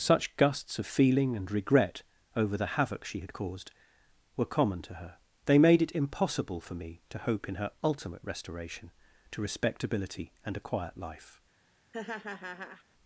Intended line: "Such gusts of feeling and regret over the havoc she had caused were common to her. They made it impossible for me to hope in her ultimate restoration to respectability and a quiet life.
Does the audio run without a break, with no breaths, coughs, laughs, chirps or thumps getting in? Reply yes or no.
no